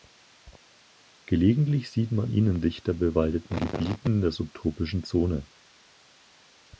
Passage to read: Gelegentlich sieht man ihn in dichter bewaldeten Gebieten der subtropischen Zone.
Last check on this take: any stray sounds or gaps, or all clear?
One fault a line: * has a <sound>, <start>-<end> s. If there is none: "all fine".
all fine